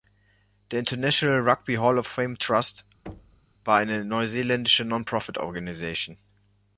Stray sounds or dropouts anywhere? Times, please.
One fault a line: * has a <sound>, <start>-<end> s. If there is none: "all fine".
* has a thud, 3.1-3.4 s